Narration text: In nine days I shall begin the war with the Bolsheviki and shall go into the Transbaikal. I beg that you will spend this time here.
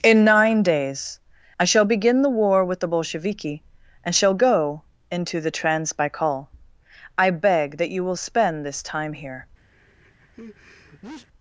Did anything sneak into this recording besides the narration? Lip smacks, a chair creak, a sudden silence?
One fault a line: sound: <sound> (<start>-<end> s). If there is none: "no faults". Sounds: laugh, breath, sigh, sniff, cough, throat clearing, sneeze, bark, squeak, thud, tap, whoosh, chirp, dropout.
sound: sneeze (9.7-11.3 s)